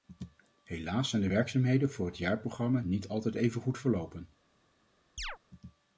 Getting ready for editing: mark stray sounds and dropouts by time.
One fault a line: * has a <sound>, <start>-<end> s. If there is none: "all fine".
* has a chirp, 5.2-5.4 s